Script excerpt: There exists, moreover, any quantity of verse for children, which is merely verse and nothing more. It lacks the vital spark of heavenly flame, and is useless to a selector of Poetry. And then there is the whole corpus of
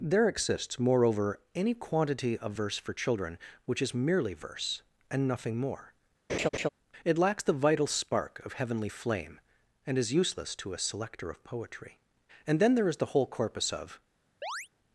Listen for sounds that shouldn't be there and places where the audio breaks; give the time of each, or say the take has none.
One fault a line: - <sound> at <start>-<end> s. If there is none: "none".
- laugh at 6.3-6.7 s
- chirp at 14.4-14.7 s